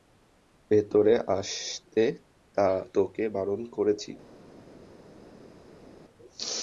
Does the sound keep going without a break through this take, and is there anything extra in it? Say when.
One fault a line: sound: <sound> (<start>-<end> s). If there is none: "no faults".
no faults